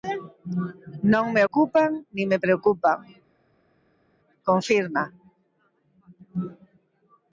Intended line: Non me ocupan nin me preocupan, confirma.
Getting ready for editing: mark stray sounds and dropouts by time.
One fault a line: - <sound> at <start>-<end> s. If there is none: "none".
none